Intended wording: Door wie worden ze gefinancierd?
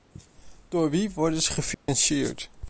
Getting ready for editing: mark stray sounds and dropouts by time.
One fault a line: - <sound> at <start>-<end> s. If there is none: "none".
- dropout at 1.7-1.9 s